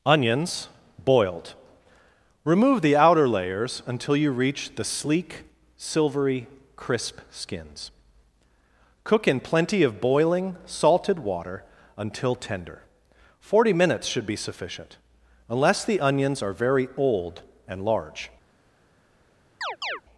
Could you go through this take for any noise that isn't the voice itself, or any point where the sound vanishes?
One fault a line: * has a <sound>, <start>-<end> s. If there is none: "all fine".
* has a chirp, 19.6-20.0 s